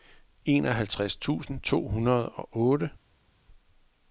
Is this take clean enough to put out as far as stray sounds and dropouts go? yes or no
yes